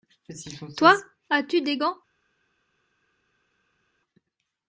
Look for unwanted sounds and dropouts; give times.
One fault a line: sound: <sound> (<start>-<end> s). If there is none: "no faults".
no faults